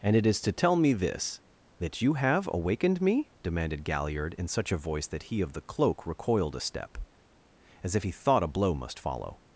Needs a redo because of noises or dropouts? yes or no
no